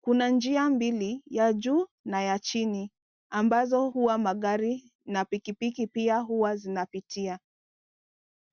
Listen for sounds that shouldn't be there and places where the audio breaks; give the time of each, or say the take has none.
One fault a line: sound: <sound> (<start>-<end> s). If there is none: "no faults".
no faults